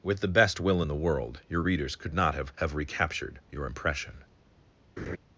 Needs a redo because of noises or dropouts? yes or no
yes